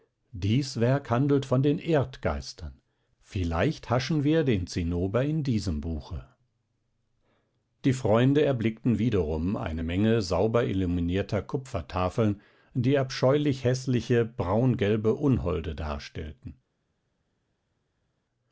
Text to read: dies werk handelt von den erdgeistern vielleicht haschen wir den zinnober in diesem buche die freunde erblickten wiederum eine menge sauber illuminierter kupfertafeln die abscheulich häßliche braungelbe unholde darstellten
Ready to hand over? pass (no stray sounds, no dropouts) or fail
pass